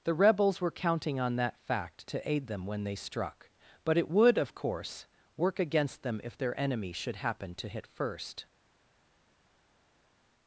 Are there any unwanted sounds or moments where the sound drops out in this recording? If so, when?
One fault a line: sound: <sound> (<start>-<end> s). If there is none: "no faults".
no faults